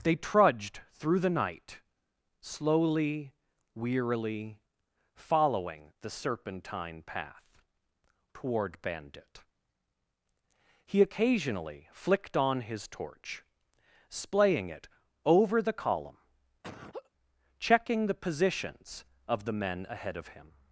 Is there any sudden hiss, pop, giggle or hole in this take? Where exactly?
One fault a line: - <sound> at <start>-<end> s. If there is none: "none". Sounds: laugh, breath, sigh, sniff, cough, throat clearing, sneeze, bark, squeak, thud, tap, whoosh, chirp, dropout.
- laugh at 16.6-17.1 s